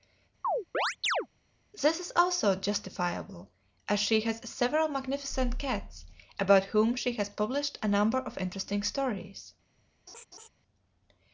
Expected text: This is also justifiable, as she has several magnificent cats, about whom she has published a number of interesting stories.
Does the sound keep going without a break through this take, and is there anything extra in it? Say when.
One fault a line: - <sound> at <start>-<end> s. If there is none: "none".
- chirp at 0.4-1.3 s
- laugh at 10.1-10.5 s